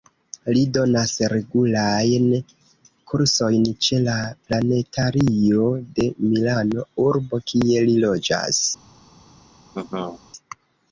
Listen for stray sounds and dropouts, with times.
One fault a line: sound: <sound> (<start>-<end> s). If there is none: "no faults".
sound: laugh (9.7-10.2 s)